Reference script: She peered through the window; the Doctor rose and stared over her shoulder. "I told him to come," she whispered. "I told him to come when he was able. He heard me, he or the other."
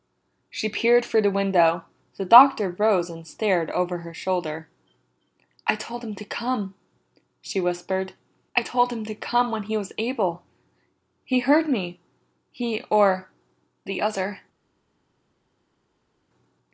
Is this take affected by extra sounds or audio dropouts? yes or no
no